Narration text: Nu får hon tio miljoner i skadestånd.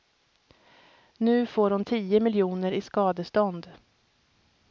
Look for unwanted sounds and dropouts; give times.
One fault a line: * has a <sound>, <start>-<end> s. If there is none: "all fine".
all fine